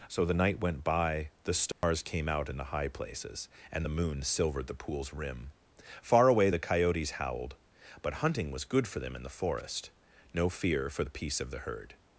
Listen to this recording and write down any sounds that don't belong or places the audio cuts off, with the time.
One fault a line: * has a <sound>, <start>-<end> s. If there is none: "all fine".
* has a dropout, 1.7-1.8 s